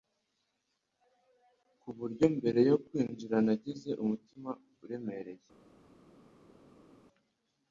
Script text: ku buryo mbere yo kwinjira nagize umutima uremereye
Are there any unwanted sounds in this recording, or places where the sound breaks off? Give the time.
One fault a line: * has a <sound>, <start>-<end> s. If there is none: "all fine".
all fine